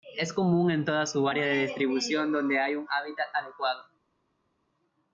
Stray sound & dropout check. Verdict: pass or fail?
pass